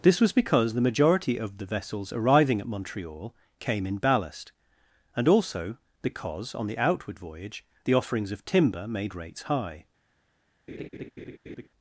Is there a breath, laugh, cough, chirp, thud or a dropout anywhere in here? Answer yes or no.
yes